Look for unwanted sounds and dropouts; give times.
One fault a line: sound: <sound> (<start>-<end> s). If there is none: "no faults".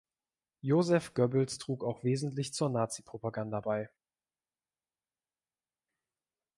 no faults